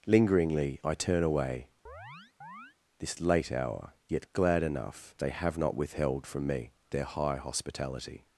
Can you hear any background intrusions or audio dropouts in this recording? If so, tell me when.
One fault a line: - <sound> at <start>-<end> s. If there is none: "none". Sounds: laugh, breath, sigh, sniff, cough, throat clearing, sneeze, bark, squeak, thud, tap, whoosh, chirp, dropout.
- chirp at 1.9-2.8 s